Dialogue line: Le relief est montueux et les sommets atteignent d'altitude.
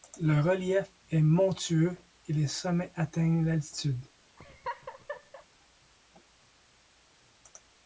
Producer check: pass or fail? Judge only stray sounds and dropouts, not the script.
fail